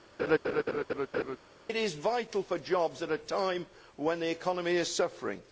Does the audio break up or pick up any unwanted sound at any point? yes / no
yes